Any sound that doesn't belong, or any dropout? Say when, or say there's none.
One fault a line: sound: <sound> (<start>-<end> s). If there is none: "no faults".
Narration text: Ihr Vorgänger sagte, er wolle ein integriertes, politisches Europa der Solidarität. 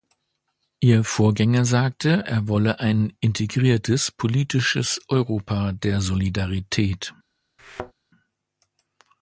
sound: thud (7.6-7.9 s)